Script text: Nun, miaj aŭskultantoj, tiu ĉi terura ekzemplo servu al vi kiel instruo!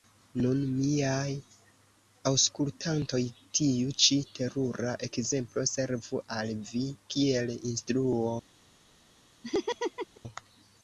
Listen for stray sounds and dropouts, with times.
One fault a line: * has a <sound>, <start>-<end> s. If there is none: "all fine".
* has a laugh, 9.4-10.2 s